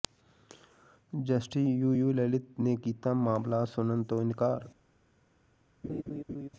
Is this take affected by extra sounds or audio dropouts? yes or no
yes